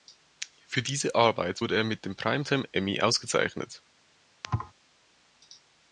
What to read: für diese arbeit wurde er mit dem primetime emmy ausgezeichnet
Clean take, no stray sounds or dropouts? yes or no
no